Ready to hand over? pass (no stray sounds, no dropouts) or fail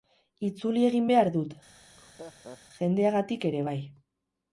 fail